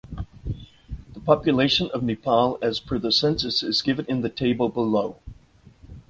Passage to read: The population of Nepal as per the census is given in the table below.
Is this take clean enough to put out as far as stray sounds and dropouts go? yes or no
yes